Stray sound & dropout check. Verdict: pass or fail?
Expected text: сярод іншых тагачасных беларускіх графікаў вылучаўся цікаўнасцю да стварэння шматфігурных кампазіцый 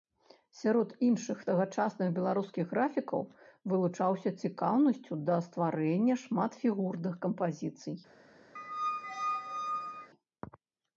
fail